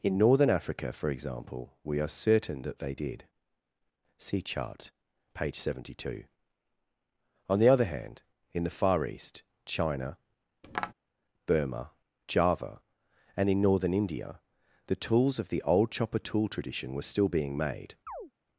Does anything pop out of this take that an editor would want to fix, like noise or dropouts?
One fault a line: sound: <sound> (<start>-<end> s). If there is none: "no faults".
sound: tap (10.6-10.9 s)
sound: chirp (18.1-18.3 s)